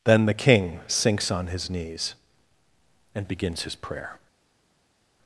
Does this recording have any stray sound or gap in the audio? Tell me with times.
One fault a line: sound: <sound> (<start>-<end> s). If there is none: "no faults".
no faults